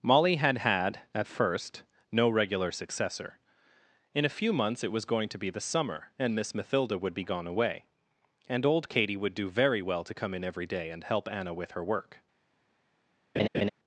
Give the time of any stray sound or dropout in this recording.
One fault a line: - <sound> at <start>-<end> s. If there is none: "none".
- laugh at 13.4-13.7 s